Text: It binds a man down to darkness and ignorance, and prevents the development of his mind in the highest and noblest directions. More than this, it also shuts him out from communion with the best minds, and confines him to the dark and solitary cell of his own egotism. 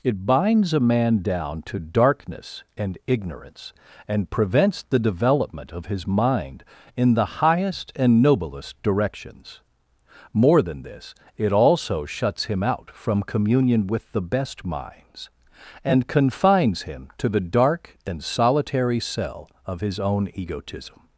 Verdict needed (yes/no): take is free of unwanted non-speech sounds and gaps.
yes